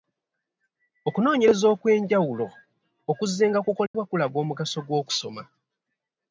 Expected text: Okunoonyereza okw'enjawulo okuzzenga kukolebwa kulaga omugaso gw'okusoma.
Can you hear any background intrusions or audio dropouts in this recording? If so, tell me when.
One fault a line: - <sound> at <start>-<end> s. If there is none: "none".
- dropout at 3.9-3.9 s